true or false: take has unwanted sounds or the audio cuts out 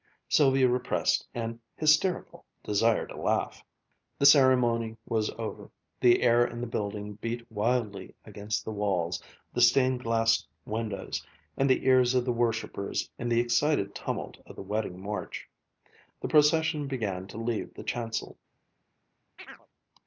true